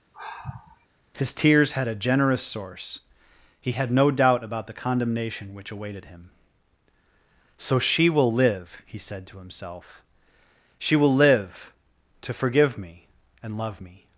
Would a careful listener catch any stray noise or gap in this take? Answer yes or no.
yes